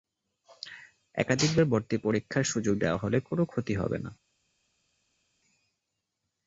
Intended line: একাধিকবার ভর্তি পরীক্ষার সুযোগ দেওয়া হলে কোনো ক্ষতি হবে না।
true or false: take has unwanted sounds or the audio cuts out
false